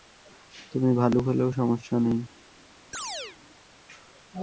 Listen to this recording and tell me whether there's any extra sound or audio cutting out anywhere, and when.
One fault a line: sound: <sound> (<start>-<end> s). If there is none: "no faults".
sound: chirp (2.9-3.4 s)